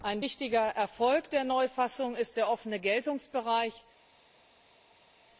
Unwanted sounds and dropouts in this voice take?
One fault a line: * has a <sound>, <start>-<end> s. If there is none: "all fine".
all fine